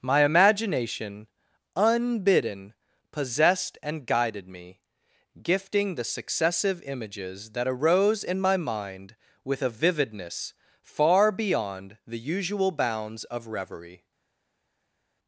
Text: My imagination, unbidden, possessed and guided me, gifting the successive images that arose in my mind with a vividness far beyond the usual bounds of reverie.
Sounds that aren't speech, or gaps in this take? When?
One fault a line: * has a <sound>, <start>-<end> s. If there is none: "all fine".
all fine